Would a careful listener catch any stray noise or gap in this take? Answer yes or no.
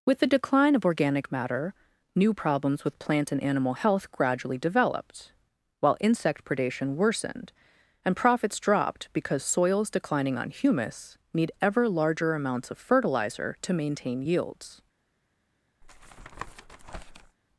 yes